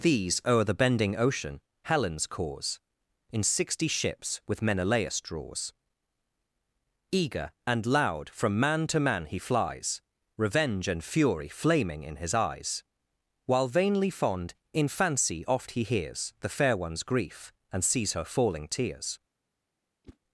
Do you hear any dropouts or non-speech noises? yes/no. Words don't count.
yes